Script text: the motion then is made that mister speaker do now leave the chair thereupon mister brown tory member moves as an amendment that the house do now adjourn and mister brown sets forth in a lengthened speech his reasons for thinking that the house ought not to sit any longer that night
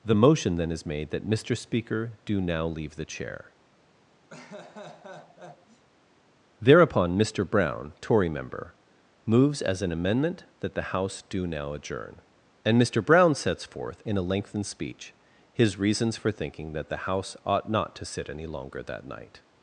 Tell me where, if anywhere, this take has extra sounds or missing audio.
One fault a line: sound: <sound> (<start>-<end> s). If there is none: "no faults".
sound: laugh (4.3-5.8 s)